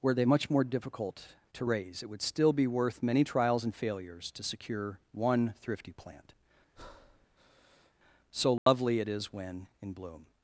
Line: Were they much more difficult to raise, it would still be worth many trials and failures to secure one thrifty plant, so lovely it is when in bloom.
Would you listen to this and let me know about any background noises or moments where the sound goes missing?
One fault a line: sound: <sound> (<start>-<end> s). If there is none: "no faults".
sound: breath (6.7-7.9 s)
sound: dropout (8.6-8.7 s)